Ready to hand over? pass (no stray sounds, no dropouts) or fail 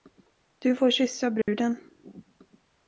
fail